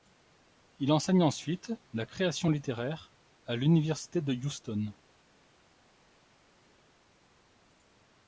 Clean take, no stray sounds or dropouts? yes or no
yes